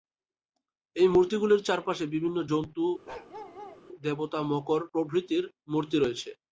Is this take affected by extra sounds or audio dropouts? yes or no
yes